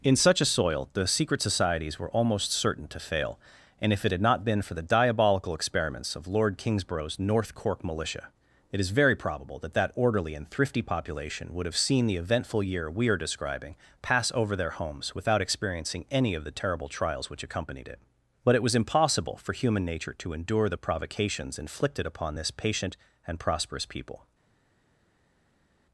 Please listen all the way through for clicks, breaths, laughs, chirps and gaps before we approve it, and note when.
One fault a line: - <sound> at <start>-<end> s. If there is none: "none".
none